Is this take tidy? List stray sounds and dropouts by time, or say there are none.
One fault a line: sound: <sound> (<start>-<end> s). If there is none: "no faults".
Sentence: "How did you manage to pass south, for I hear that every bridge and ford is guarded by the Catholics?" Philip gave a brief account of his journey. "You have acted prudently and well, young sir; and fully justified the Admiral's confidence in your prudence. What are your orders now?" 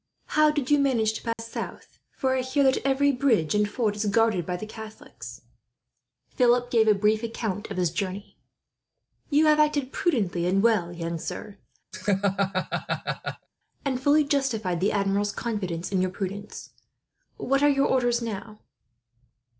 sound: dropout (1.3-1.4 s)
sound: laugh (11.9-13.5 s)